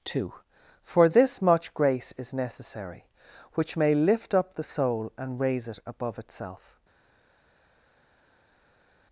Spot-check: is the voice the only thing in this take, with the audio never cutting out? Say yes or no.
yes